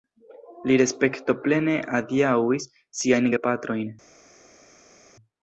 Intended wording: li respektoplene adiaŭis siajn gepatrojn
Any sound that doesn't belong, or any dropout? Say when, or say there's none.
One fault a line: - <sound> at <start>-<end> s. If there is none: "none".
none